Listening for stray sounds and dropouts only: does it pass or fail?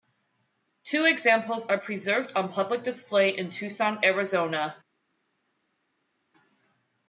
pass